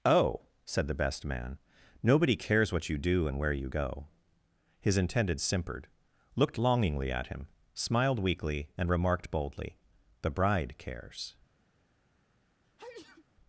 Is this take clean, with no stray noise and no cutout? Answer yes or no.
no